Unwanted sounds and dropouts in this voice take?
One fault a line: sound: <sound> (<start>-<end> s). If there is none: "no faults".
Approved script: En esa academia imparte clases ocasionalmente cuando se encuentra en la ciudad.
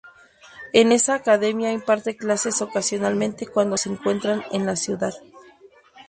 no faults